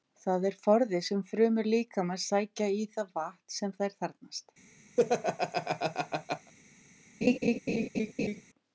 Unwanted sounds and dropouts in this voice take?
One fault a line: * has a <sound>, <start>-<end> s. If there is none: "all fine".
* has a laugh, 5.0-6.5 s
* has a laugh, 7.2-8.4 s